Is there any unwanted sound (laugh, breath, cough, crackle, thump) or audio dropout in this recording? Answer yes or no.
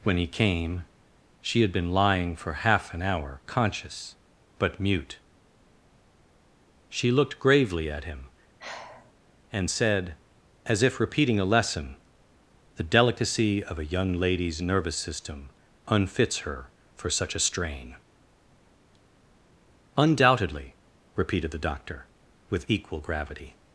yes